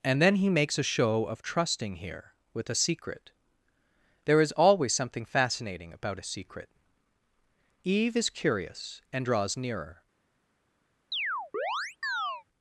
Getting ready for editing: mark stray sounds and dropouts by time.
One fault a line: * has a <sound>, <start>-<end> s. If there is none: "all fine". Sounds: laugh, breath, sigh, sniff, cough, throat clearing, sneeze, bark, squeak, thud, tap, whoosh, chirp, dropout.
* has a chirp, 11.1-12.4 s